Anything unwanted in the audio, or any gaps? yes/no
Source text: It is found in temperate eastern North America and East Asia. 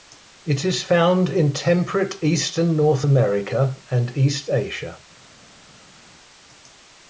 no